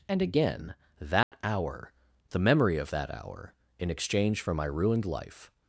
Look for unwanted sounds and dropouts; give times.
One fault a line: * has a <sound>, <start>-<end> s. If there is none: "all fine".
* has a dropout, 1.2-1.3 s